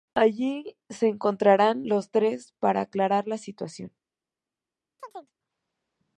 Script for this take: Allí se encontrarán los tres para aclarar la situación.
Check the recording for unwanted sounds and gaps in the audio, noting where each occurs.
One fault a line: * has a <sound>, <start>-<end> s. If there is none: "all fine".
* has a chirp, 5.0-5.3 s